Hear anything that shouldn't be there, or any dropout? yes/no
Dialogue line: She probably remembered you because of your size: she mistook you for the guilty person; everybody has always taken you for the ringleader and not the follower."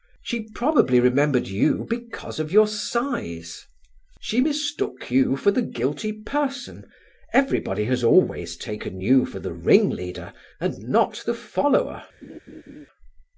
yes